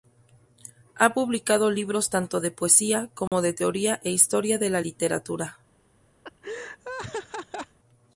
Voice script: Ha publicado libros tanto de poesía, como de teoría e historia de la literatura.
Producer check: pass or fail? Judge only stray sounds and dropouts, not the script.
fail